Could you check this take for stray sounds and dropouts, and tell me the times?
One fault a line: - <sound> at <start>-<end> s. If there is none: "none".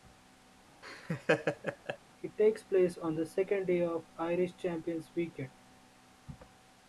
- laugh at 0.8-2.0 s